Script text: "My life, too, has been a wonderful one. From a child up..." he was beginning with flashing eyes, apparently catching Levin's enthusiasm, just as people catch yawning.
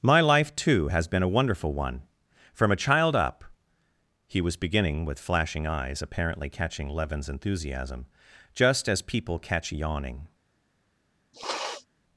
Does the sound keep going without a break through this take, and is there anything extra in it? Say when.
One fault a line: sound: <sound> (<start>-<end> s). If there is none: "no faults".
sound: sniff (11.3-11.9 s)